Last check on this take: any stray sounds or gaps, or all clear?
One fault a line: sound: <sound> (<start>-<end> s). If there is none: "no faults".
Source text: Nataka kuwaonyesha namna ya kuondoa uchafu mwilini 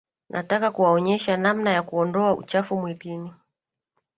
no faults